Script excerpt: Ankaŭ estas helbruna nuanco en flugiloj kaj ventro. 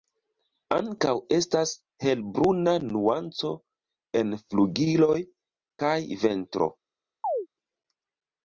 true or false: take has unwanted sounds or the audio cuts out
true